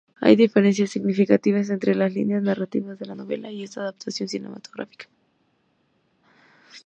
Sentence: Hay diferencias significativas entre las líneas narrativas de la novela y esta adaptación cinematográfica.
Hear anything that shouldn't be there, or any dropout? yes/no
no